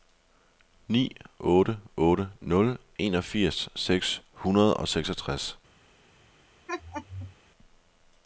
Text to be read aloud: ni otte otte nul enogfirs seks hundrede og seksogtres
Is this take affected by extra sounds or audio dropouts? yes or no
yes